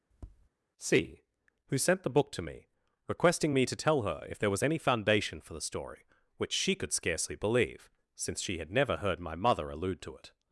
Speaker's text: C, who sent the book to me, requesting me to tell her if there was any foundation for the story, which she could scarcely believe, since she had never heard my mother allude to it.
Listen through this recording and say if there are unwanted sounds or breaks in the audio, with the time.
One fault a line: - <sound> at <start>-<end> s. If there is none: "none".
- tap at 0.1-0.5 s